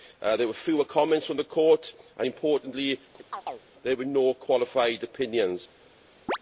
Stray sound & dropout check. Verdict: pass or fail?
fail